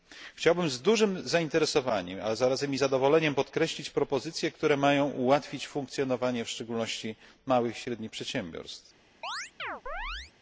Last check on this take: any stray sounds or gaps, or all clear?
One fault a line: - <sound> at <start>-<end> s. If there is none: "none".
- chirp at 9.2-10.3 s